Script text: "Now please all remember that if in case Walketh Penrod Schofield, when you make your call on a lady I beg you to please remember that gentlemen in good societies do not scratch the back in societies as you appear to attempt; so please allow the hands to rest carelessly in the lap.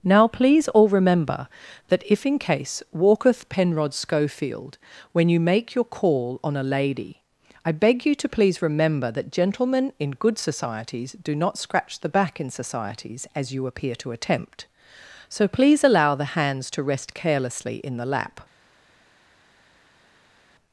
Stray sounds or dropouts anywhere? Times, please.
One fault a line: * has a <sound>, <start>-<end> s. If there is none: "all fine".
all fine